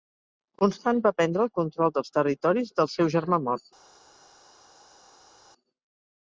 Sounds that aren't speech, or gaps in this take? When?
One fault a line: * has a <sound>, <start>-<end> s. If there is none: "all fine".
all fine